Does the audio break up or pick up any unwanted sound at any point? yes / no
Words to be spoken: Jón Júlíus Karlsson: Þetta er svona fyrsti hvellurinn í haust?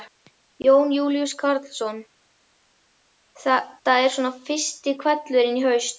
no